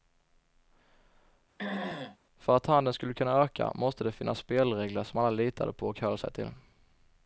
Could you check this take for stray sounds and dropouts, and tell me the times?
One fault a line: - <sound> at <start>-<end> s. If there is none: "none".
- throat clearing at 1.6-2.2 s